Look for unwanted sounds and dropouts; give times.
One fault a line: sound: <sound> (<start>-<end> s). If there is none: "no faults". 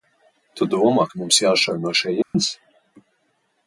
sound: dropout (2.2-2.3 s)